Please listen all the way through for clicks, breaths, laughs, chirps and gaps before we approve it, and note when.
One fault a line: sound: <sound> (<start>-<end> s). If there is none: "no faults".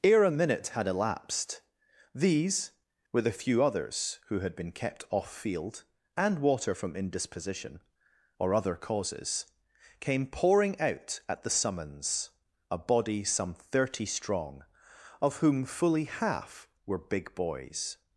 no faults